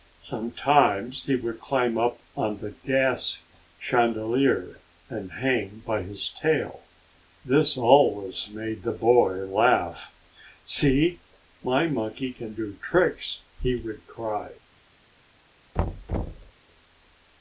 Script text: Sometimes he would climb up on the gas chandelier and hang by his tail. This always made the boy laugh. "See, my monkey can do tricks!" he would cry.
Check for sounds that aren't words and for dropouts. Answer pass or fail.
fail